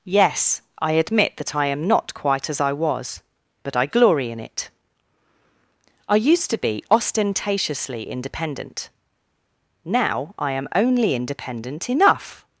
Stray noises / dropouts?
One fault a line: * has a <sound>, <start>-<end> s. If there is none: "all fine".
all fine